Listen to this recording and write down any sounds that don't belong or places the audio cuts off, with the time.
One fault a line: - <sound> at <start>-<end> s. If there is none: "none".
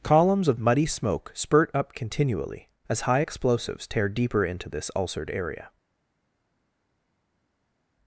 none